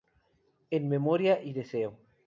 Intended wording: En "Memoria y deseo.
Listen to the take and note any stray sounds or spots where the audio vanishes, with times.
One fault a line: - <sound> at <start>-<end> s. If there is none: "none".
none